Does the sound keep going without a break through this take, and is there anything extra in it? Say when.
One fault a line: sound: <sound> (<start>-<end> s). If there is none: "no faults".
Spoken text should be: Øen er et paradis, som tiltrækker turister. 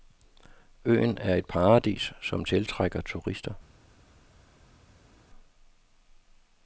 no faults